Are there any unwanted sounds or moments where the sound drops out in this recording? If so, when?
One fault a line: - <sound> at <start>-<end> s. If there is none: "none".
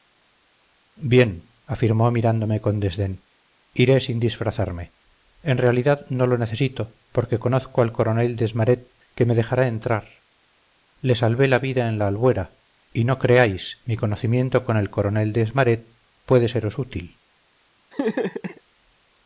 - laugh at 17.9-18.6 s